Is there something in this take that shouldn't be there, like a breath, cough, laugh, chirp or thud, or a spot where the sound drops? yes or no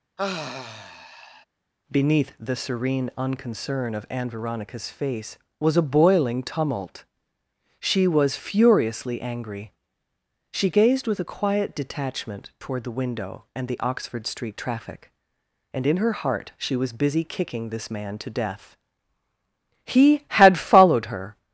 yes